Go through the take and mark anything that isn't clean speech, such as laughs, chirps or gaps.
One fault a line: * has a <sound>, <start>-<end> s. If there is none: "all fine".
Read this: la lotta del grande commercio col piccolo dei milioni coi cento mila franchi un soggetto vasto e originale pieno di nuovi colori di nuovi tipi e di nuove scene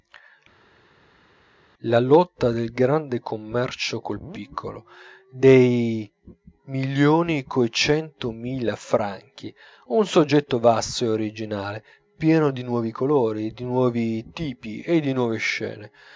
all fine